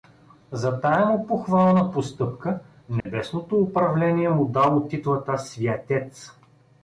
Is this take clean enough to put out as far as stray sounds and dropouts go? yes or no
no